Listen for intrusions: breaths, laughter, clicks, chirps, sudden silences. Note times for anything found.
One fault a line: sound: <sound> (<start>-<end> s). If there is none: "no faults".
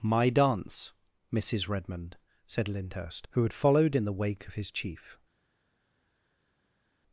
no faults